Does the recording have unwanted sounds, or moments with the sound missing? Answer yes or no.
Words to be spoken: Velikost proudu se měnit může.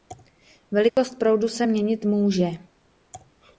yes